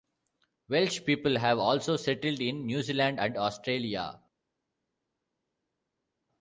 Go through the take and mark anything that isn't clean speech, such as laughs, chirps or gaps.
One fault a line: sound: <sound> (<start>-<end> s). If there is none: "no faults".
no faults